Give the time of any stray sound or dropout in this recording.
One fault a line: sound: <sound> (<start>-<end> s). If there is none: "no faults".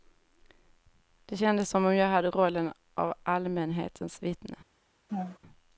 sound: laugh (5.1-5.4 s)